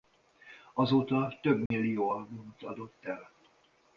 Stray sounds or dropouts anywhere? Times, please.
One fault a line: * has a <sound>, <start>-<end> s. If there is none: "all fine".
* has a dropout, 1.7-1.7 s